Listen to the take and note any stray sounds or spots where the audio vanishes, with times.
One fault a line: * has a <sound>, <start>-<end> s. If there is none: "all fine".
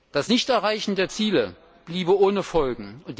all fine